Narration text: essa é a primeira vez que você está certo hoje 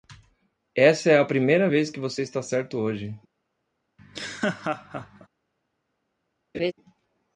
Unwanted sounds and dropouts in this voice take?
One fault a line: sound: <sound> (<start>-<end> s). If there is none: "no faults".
sound: laugh (4.0-5.3 s)
sound: laugh (6.5-6.7 s)